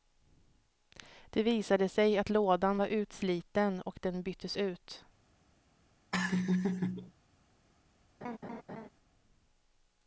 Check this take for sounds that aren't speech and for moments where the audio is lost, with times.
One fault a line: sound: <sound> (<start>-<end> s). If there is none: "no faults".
sound: laugh (6.1-7.1 s)
sound: laugh (8.2-8.9 s)